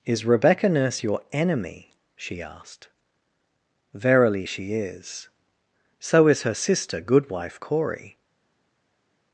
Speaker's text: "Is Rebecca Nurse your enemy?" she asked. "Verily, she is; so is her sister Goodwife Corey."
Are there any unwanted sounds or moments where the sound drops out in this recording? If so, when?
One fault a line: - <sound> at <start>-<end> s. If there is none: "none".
none